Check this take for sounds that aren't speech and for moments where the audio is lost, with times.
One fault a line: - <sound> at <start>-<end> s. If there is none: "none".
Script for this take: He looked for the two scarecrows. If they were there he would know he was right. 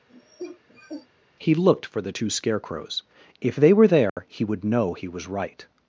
- cough at 0.1-1.1 s
- dropout at 4.1-4.2 s